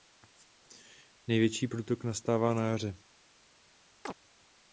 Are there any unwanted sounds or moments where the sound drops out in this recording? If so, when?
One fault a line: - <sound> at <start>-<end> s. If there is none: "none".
- chirp at 4.1-4.1 s